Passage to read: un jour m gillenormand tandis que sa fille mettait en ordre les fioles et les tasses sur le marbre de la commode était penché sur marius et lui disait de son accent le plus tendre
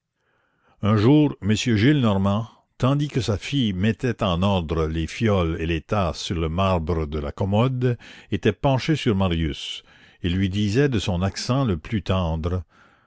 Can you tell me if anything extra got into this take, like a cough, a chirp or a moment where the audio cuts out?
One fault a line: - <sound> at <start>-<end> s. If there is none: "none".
none